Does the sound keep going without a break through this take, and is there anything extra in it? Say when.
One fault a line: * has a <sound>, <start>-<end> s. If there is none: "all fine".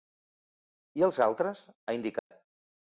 * has a dropout, 2.2-2.3 s